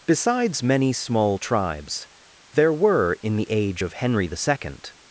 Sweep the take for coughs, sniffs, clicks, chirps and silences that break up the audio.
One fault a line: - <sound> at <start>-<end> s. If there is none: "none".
none